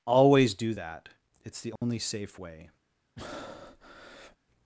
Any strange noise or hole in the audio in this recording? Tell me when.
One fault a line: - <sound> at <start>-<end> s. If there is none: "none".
- dropout at 1.8-1.8 s
- breath at 3.2-4.4 s